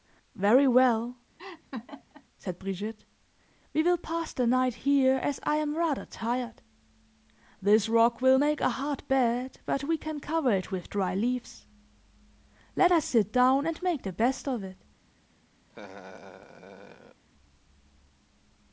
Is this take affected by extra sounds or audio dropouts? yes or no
yes